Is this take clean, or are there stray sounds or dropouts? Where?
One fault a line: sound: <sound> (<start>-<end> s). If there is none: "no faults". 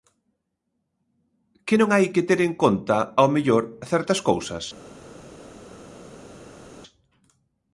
no faults